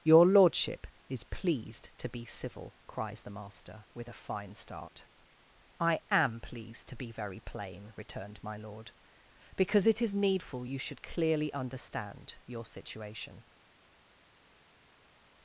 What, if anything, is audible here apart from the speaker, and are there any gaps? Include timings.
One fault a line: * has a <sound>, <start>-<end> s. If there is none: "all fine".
all fine